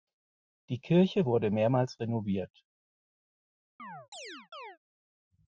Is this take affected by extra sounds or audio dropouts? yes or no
yes